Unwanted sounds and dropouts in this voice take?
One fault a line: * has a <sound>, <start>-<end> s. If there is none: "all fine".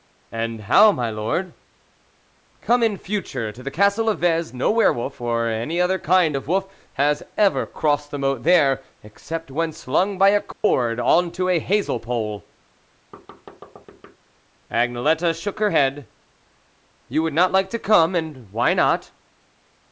* has a dropout, 10.5-10.6 s
* has a thud, 13.1-14.2 s